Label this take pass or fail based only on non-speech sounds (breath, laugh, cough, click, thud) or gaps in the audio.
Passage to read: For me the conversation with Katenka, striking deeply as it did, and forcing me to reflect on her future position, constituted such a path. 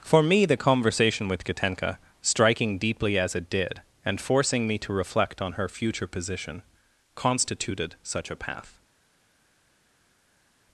pass